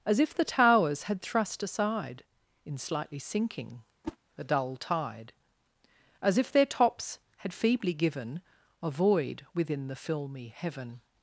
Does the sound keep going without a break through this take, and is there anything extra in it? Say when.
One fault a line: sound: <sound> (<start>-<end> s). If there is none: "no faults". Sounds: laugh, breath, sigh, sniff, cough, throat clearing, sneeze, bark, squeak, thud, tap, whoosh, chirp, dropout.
sound: whoosh (4.0-4.2 s)